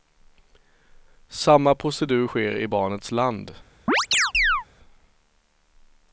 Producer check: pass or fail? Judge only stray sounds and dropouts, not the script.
fail